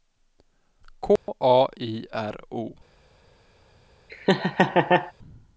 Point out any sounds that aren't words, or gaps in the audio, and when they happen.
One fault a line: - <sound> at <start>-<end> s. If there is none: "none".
- dropout at 1.2-1.3 s
- laugh at 4.1-5.1 s